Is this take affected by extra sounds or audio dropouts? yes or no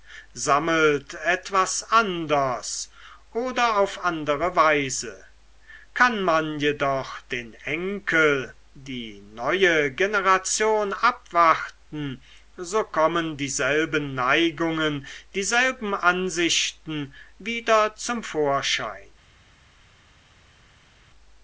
no